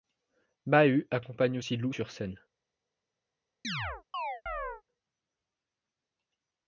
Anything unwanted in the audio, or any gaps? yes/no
yes